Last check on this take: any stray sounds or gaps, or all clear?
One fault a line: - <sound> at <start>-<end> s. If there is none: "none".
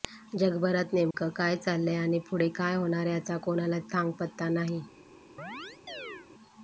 - dropout at 1.1-1.1 s
- chirp at 5.4-6.3 s